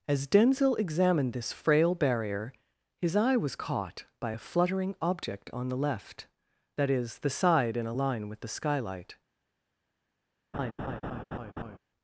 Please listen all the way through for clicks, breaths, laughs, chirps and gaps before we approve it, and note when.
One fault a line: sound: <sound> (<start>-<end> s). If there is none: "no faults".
sound: laugh (10.5-11.8 s)